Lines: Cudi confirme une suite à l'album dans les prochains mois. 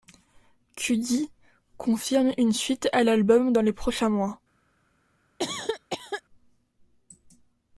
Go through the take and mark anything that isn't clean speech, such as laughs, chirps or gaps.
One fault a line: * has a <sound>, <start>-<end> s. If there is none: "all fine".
* has a cough, 5.4-6.2 s